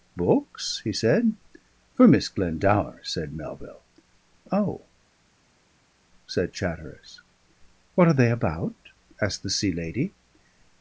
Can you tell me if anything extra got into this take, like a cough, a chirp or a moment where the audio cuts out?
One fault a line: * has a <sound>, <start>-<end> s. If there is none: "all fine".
all fine